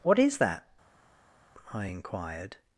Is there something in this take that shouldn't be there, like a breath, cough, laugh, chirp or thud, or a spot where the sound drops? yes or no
no